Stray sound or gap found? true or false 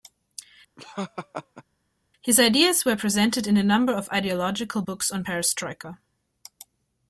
true